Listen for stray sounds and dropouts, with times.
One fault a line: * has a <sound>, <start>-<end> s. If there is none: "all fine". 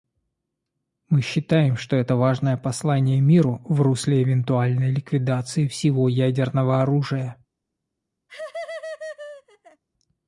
* has a laugh, 8.3-9.8 s